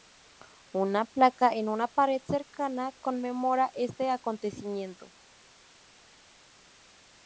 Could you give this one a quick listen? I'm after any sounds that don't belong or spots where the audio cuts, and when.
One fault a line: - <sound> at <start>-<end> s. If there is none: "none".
none